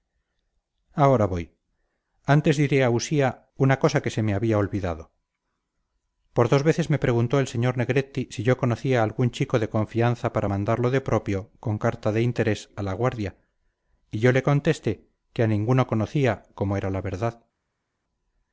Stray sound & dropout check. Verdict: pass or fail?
pass